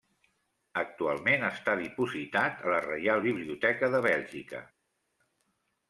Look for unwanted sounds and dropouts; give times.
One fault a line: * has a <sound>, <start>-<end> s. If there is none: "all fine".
all fine